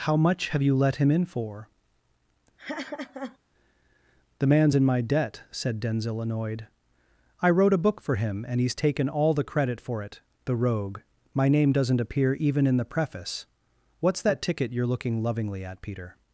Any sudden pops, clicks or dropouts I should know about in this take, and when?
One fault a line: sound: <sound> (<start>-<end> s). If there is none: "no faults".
sound: laugh (2.6-3.4 s)